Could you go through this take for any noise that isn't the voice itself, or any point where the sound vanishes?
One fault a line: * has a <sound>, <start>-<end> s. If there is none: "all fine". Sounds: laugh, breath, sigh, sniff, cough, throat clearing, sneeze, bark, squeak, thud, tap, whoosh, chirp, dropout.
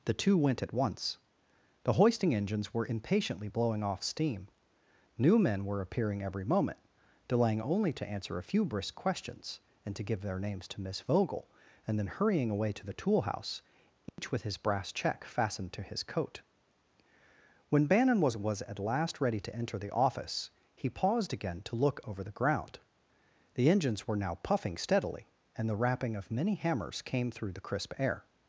* has a dropout, 14.1-14.2 s